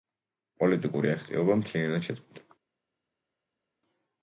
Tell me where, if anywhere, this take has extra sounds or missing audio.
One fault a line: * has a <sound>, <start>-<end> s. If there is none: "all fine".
all fine